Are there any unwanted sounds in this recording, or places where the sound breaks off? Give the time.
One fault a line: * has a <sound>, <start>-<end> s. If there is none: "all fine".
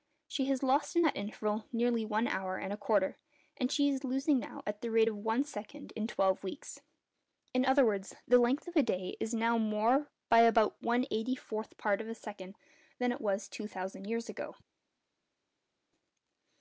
all fine